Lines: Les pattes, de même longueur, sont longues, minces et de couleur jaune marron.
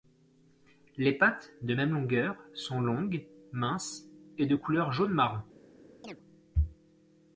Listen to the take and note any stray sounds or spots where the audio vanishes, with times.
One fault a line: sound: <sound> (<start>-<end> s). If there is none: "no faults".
sound: chirp (6.0-6.2 s)